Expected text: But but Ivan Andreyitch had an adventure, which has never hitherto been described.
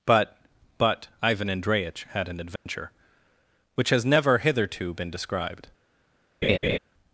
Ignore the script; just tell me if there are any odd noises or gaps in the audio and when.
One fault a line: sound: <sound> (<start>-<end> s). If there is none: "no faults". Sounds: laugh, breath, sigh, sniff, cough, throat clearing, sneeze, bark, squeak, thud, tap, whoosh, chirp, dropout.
sound: dropout (2.6-2.7 s)
sound: laugh (6.4-6.8 s)